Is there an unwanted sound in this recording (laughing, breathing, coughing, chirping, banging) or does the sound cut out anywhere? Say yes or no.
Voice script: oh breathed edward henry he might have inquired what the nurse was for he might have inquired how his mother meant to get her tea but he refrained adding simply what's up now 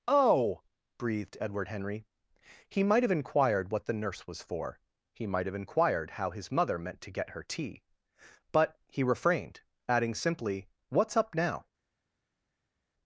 no